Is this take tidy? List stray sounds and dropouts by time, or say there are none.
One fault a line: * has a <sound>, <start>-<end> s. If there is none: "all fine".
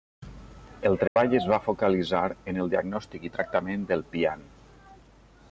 * has a dropout, 1.1-1.2 s